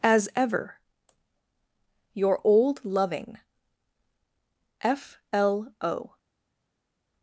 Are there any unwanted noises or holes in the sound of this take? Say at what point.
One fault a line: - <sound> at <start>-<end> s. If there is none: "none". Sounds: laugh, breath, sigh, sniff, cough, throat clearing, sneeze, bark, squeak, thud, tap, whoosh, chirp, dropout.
none